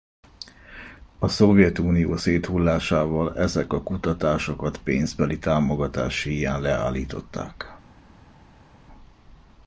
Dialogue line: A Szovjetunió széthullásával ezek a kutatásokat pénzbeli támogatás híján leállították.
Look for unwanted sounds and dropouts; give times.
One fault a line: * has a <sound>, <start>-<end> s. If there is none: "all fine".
all fine